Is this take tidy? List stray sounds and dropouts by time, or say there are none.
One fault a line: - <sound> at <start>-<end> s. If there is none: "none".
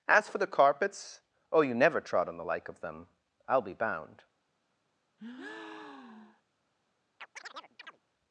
- breath at 5.2-6.4 s
- chirp at 7.2-8.0 s